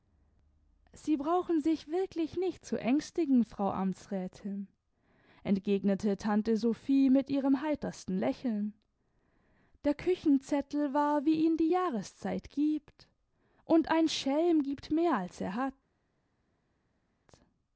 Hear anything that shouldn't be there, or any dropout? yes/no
no